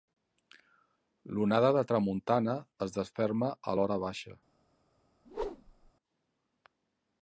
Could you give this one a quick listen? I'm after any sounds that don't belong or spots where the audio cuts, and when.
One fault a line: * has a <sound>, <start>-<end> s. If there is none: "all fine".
* has a whoosh, 5.2-5.9 s